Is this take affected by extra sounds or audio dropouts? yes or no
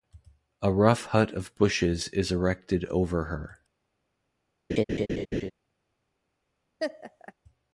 yes